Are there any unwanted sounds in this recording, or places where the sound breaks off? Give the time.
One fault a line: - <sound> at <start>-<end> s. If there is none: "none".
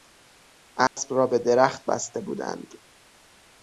- dropout at 0.9-1.0 s